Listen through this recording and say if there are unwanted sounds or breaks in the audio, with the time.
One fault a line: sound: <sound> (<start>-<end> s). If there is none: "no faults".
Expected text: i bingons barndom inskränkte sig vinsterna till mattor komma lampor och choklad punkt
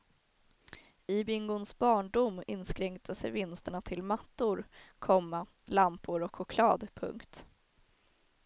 no faults